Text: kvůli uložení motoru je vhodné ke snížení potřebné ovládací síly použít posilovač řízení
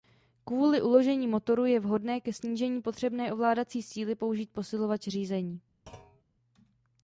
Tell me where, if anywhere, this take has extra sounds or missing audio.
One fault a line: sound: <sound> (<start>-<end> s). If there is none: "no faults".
sound: thud (5.9-6.2 s)